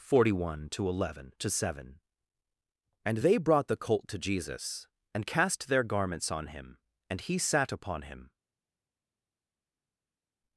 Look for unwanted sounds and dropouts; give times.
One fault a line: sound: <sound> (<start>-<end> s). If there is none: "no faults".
no faults